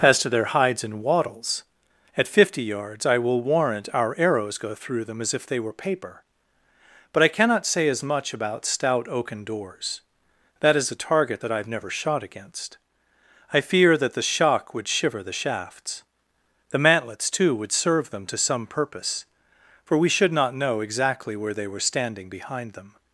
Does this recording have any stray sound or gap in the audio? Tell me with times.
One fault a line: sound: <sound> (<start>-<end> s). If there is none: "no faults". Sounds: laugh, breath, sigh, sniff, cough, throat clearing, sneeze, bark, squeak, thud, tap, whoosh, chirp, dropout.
no faults